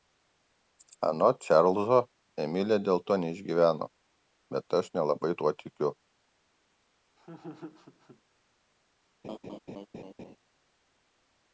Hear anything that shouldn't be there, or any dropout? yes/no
yes